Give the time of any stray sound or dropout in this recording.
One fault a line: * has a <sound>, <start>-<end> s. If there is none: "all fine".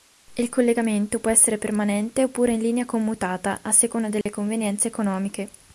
* has a dropout, 4.2-4.3 s